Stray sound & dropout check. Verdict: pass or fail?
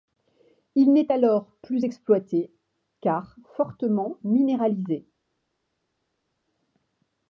pass